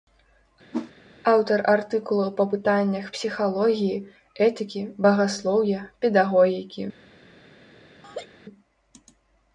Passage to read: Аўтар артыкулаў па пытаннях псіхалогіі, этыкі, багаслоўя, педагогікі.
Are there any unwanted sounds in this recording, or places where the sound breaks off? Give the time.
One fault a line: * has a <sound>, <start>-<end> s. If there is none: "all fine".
* has a whoosh, 0.7-0.9 s
* has a laugh, 8.0-8.3 s